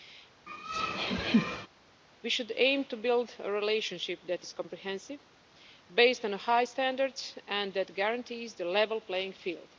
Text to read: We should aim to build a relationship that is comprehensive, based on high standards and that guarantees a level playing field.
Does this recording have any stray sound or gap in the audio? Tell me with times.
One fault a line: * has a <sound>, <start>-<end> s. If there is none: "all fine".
* has a laugh, 0.5-1.7 s